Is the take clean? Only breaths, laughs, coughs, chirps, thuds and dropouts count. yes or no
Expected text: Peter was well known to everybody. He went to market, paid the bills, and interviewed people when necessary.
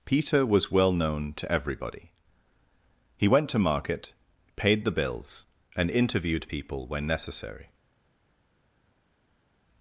yes